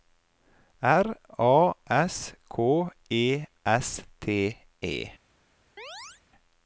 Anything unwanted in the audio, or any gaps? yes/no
yes